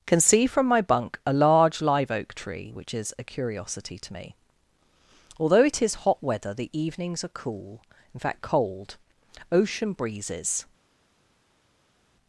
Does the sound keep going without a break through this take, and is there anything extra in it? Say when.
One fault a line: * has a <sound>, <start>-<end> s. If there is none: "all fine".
all fine